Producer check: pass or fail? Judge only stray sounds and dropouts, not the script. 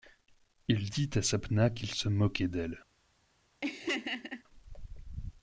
fail